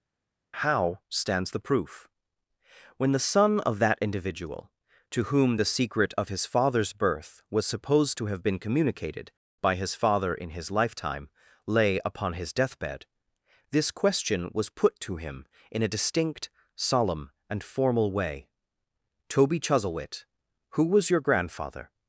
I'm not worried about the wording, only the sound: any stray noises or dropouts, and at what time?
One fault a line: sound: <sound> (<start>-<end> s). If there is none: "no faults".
no faults